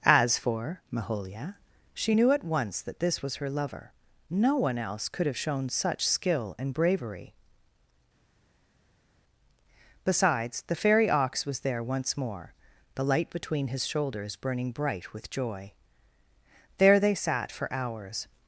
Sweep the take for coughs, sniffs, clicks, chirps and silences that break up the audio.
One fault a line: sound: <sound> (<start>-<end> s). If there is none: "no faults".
no faults